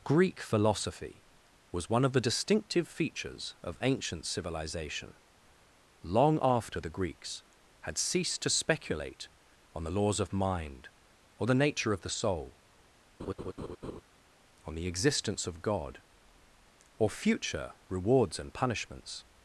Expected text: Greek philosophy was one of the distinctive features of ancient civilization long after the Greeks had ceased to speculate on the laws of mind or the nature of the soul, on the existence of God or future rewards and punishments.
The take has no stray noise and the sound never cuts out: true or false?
false